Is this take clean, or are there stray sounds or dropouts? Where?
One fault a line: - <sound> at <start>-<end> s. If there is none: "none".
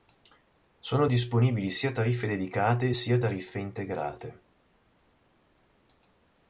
none